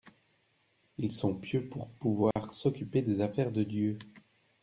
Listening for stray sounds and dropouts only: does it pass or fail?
fail